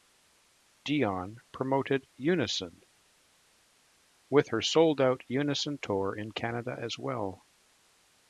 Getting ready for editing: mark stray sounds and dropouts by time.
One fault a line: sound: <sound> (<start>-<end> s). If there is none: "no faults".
no faults